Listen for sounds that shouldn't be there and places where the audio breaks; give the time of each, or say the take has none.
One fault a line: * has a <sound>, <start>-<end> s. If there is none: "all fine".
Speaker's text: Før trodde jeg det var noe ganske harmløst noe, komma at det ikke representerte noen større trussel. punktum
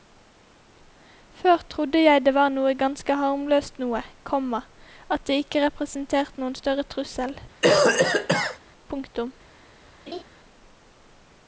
* has a cough, 7.6-8.6 s
* has a laugh, 10.1-10.2 s